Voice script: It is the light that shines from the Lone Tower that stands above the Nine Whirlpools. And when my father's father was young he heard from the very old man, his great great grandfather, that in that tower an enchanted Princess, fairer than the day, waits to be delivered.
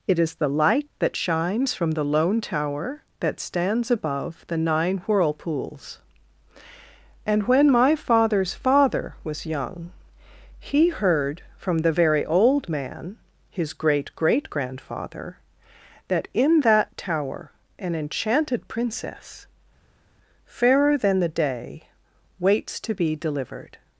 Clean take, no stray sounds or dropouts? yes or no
yes